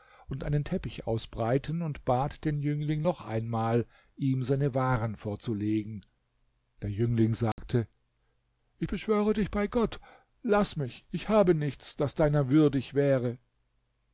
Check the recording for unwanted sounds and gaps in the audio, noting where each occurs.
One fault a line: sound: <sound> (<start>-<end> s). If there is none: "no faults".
sound: dropout (7.5-7.6 s)